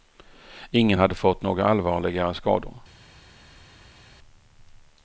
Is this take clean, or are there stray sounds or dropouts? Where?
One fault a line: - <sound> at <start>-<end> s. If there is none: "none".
none